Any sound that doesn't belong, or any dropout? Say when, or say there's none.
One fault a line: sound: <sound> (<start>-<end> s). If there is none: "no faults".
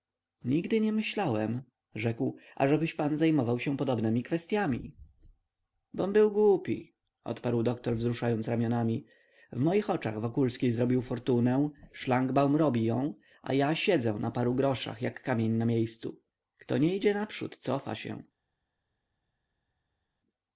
no faults